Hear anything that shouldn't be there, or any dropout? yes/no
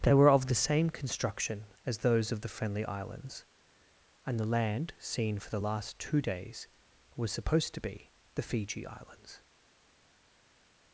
no